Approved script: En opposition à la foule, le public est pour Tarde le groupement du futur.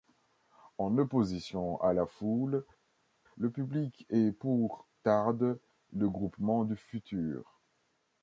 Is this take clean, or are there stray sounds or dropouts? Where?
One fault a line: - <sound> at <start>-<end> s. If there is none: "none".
none